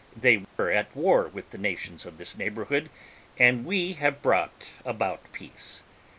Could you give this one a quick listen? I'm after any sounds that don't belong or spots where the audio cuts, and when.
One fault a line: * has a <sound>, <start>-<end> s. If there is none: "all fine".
* has a dropout, 0.4-0.6 s